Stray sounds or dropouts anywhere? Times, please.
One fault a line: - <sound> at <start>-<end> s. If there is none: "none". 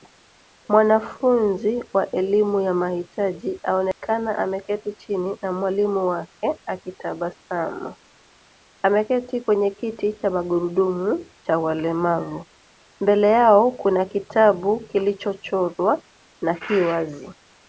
- dropout at 3.9-4.0 s